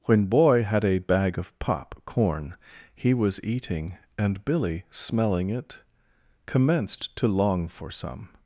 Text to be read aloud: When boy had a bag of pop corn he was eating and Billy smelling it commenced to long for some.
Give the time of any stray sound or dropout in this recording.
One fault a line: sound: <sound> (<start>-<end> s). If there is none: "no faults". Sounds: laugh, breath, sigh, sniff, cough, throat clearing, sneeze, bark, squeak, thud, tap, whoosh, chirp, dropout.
no faults